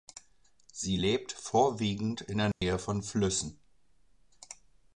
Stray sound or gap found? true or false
true